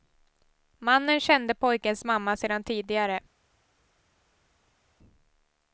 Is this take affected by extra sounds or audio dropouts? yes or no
no